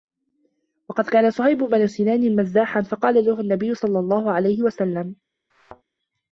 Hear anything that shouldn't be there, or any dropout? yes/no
yes